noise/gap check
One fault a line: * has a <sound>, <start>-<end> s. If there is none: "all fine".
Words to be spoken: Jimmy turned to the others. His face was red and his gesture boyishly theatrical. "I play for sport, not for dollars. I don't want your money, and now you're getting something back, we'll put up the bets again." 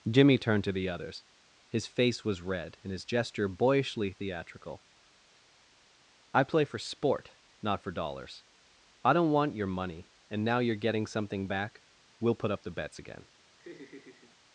* has a laugh, 13.6-14.4 s